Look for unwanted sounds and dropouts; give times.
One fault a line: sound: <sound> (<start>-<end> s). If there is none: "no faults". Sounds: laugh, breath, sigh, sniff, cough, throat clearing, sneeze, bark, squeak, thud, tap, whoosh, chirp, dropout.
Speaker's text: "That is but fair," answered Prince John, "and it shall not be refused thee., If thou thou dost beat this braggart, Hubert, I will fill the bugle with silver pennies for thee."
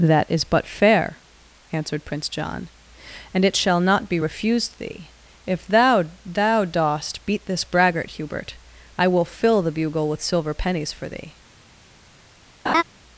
sound: laugh (12.7-12.8 s)